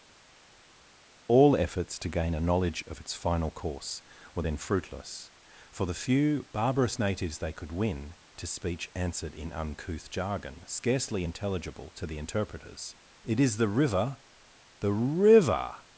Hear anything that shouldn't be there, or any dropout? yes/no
no